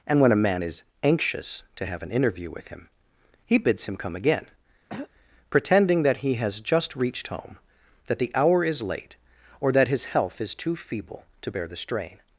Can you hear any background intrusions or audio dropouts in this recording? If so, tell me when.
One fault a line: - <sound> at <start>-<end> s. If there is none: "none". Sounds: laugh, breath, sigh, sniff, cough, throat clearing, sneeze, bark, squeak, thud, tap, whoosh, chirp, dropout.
- throat clearing at 4.9-5.1 s